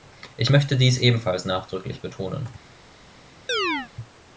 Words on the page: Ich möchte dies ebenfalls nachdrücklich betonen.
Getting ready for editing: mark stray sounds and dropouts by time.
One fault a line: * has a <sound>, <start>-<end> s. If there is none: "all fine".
* has a chirp, 3.5-3.9 s